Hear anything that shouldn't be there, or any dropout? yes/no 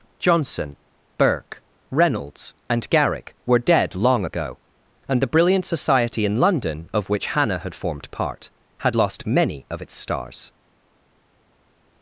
no